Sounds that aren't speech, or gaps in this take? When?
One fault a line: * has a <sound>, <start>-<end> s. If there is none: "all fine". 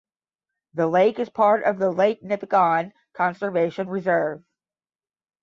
all fine